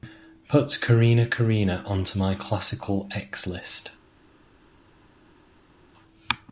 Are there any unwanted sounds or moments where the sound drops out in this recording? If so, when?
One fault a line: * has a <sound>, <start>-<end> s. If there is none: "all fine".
all fine